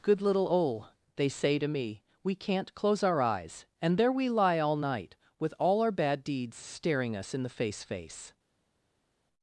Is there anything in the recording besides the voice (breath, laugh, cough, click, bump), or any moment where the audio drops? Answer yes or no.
no